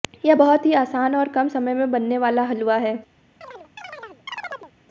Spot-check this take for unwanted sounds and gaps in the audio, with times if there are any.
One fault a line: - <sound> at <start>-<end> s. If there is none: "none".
- chirp at 3.4-4.7 s